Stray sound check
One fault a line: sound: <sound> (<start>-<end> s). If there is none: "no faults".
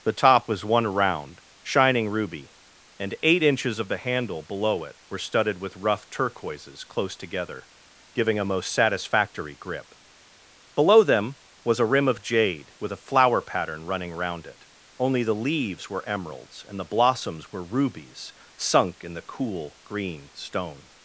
no faults